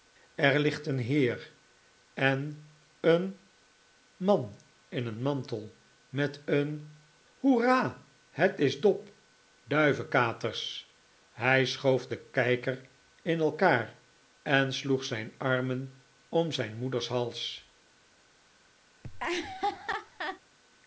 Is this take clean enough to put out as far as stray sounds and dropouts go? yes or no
no